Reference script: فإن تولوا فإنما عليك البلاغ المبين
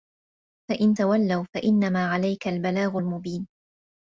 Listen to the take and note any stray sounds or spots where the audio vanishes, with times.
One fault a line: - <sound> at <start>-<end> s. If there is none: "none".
none